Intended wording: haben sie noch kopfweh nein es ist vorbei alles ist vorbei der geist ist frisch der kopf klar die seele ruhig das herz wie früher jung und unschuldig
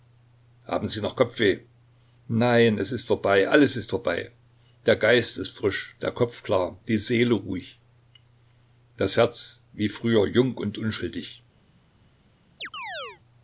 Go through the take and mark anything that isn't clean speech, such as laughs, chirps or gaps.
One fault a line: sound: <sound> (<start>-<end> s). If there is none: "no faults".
sound: chirp (12.6-13.2 s)